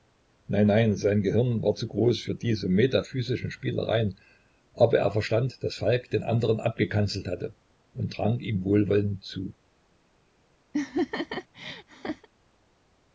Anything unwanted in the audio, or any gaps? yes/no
yes